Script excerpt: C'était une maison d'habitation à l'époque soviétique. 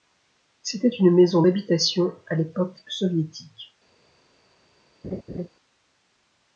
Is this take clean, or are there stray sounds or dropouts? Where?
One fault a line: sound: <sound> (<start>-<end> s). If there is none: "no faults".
sound: laugh (5.0-5.5 s)